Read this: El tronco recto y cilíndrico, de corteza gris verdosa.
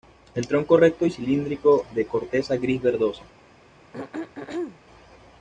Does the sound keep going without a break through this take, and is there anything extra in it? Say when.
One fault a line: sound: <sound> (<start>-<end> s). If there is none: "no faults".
sound: throat clearing (3.9-4.8 s)